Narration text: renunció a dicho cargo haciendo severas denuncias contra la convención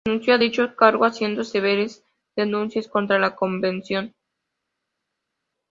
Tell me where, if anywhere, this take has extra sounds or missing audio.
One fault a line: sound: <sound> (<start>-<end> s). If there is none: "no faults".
no faults